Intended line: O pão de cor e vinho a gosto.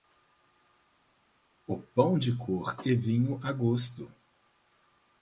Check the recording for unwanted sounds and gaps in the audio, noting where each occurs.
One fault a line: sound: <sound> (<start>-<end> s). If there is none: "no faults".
no faults